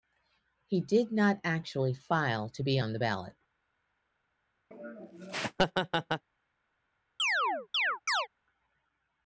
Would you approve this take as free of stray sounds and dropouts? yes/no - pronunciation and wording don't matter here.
no